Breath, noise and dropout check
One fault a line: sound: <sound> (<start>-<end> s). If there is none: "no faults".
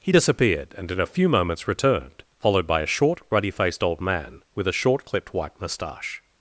no faults